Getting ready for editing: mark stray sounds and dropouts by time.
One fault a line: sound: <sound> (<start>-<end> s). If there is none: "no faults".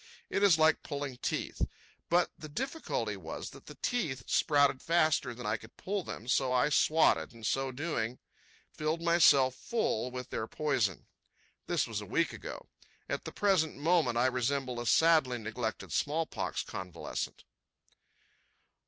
no faults